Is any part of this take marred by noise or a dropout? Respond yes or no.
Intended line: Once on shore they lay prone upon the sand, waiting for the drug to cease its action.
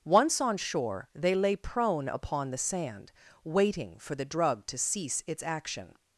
no